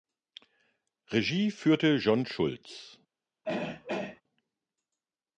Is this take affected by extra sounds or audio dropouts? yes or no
yes